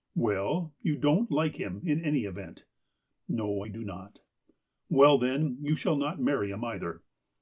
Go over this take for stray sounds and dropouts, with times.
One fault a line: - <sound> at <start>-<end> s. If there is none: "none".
none